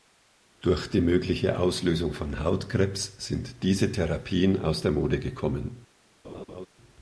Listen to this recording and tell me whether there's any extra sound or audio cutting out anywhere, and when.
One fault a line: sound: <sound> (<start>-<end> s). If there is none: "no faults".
sound: laugh (6.2-6.7 s)